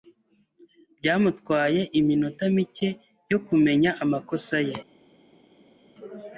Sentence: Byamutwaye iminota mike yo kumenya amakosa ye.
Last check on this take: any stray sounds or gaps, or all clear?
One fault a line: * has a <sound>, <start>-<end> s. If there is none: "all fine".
all fine